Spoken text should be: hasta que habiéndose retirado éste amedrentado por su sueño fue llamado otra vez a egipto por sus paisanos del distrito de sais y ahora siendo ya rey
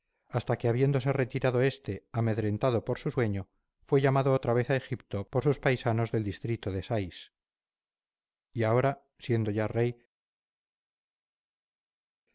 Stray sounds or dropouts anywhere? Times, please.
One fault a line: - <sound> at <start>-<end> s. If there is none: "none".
none